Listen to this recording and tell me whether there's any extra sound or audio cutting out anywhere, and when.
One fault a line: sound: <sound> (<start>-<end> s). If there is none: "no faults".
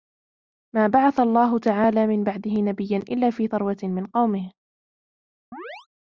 sound: chirp (5.5-5.9 s)